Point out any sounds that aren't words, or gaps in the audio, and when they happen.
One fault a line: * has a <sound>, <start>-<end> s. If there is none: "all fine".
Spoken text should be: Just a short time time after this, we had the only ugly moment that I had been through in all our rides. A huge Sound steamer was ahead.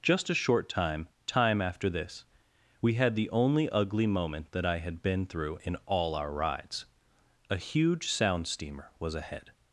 all fine